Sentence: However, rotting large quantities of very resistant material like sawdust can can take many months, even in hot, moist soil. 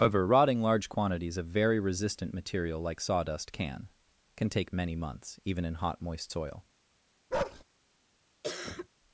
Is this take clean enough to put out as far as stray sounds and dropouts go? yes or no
no